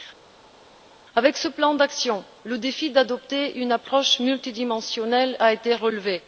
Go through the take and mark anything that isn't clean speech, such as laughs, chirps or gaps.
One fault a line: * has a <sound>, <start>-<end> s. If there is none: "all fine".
all fine